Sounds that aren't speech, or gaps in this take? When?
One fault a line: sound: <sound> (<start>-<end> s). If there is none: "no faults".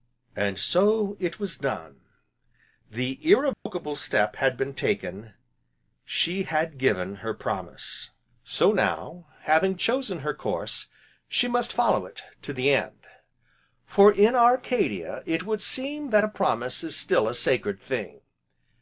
sound: dropout (3.5-3.7 s)